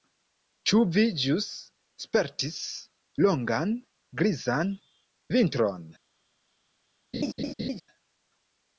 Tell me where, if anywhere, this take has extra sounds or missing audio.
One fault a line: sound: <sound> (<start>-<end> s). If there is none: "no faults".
sound: laugh (7.1-7.8 s)